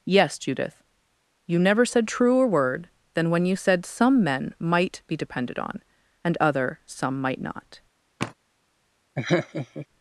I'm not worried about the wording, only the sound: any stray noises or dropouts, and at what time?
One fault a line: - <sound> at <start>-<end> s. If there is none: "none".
- sigh at 8.2-8.3 s
- laugh at 9.2-9.9 s